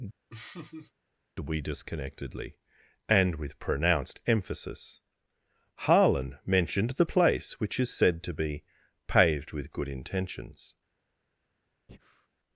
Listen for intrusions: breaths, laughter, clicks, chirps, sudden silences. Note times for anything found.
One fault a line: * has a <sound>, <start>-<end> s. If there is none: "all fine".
* has a laugh, 0.3-0.9 s
* has a breath, 11.9-12.3 s